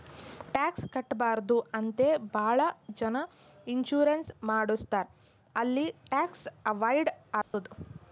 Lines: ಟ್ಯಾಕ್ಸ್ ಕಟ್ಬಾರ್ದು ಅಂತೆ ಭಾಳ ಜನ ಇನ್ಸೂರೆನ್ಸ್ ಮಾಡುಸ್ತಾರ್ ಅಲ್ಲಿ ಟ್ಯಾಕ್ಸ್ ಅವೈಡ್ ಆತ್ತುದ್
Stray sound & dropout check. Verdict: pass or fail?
fail